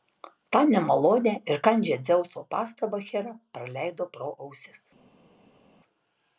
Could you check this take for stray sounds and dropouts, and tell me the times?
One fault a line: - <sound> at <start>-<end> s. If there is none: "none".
none